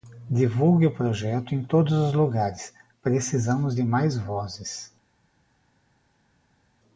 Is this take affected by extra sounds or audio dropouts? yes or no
no